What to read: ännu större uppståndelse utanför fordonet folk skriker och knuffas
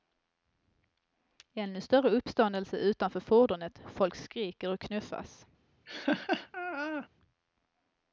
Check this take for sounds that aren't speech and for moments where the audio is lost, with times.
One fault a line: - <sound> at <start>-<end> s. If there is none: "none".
- laugh at 5.9-7.1 s